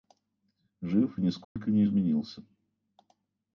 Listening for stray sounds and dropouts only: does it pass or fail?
fail